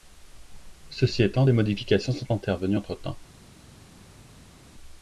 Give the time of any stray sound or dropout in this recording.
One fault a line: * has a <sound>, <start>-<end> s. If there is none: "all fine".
all fine